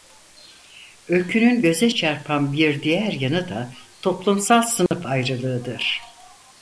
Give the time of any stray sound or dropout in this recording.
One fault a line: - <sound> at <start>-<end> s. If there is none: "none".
- dropout at 4.9-4.9 s